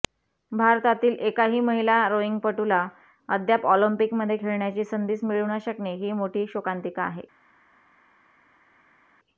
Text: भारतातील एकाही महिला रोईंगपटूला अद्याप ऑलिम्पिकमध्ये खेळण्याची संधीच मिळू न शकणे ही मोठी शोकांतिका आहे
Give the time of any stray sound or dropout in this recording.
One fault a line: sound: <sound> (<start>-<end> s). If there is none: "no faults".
no faults